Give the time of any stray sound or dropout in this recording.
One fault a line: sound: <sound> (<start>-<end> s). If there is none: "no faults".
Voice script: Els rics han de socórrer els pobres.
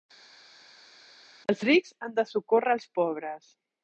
no faults